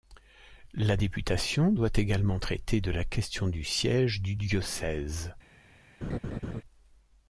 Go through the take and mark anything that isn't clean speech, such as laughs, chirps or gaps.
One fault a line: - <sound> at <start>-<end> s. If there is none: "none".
- laugh at 6.0-6.6 s